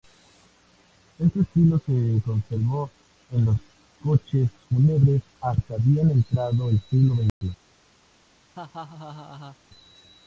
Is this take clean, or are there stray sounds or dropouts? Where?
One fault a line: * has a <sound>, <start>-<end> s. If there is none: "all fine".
* has a dropout, 7.3-7.4 s
* has a laugh, 8.5-9.6 s